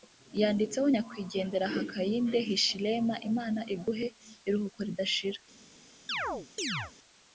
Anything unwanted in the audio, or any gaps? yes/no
yes